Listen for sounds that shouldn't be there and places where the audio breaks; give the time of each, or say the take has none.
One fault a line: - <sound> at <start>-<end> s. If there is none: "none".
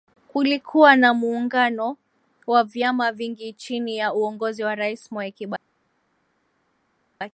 none